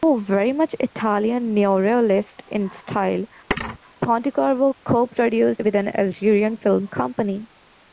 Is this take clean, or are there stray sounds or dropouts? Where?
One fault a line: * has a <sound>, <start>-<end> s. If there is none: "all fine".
* has a thud, 3.5-3.8 s